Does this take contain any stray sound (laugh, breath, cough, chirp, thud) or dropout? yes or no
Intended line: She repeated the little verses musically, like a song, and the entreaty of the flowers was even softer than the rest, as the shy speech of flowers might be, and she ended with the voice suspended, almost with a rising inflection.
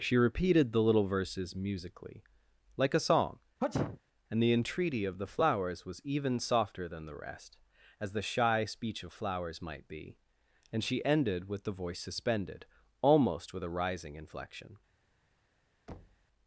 yes